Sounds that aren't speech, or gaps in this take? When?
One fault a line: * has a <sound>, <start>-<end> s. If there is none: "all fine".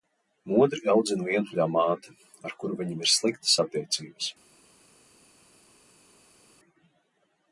all fine